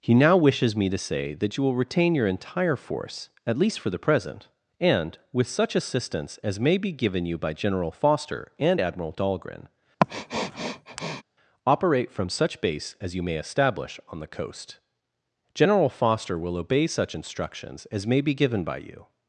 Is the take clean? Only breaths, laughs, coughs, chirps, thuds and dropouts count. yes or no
no